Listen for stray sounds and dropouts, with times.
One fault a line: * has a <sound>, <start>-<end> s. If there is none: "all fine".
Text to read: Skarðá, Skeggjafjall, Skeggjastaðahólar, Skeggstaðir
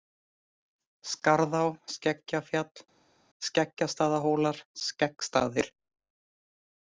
all fine